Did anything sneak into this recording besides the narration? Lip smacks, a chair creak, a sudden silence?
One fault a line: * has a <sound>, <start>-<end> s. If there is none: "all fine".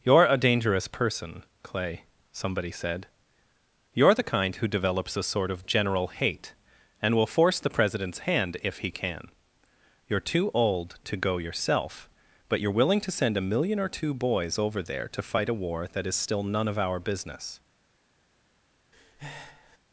* has a breath, 18.9-19.8 s